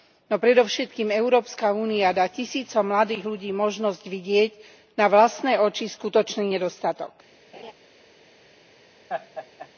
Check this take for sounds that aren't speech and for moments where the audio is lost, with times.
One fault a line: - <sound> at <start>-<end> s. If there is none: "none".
- laugh at 7.5-7.7 s
- laugh at 9.1-9.7 s